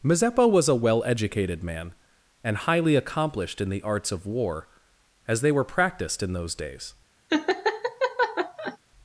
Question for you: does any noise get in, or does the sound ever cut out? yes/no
yes